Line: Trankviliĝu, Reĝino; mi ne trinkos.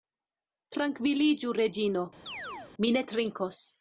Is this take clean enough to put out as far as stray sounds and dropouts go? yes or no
no